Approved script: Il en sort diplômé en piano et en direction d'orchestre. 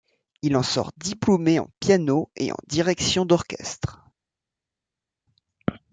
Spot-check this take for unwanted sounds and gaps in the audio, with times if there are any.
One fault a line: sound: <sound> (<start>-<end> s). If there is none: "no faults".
no faults